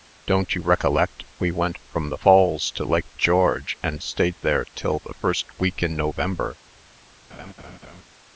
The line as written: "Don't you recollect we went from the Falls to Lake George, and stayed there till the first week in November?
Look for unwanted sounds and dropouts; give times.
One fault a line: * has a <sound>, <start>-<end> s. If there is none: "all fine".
* has a laugh, 7.3-8.0 s